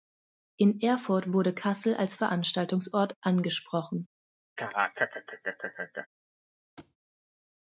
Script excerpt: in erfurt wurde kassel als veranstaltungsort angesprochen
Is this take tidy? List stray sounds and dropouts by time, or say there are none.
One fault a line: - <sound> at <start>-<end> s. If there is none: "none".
- laugh at 4.6-6.1 s
- thud at 6.8-7.0 s